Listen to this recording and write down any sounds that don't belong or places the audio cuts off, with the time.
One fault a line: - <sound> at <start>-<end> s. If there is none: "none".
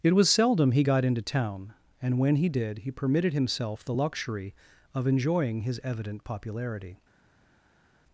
none